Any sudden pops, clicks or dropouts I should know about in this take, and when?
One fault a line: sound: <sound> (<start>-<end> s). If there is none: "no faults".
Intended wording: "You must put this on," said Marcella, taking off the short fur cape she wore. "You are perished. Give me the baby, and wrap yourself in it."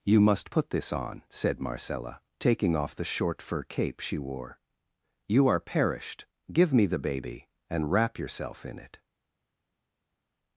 no faults